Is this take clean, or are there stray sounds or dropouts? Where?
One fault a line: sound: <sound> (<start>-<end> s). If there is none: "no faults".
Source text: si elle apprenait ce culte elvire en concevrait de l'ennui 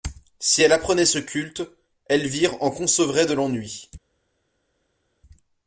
no faults